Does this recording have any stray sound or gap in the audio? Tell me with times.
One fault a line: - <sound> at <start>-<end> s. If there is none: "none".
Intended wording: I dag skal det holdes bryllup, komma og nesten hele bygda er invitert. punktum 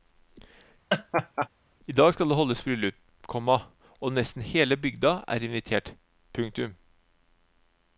- laugh at 0.9-1.5 s